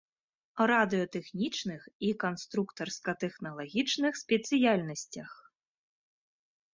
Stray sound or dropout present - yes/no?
no